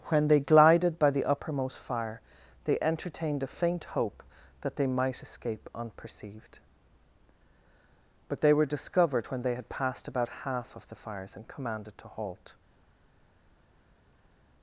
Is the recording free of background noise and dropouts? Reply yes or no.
yes